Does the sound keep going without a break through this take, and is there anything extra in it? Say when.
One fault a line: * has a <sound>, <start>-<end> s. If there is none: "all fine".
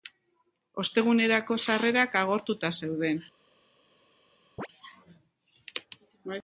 * has a chirp, 4.6-4.7 s